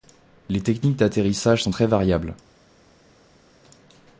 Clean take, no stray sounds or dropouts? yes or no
yes